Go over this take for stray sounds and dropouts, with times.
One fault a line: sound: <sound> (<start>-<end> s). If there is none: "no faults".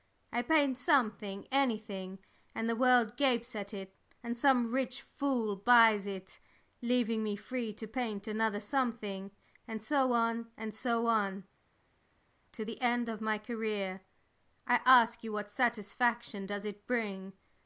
no faults